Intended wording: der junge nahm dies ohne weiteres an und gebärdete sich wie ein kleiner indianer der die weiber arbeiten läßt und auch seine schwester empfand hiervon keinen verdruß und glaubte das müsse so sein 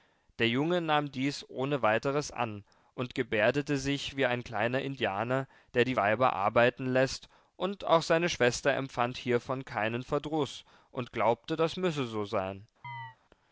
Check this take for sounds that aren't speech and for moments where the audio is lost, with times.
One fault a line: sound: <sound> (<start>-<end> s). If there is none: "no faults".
sound: chirp (12.8-13.2 s)